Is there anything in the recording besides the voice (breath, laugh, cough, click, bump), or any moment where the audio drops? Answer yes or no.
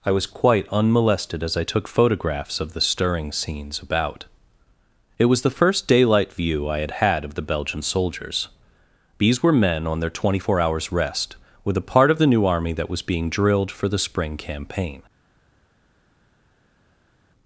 no